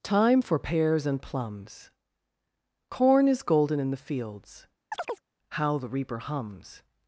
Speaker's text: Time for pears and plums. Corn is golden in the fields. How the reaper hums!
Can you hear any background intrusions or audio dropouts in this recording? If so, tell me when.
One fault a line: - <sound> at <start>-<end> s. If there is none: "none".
- chirp at 4.9-5.2 s